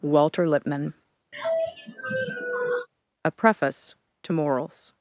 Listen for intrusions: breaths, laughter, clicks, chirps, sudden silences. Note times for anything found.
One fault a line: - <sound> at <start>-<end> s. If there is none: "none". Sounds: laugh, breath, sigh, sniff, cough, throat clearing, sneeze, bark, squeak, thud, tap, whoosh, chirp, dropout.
- sigh at 1.3-2.9 s